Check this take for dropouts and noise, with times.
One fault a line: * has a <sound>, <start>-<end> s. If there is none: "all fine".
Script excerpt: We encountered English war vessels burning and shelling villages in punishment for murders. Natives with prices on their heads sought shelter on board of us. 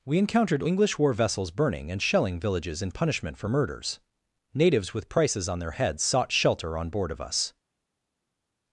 all fine